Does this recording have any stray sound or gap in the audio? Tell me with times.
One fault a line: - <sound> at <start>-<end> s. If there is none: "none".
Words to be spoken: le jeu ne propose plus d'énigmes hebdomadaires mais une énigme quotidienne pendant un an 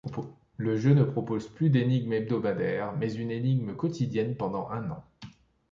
none